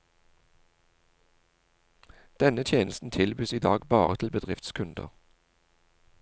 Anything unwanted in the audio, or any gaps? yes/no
no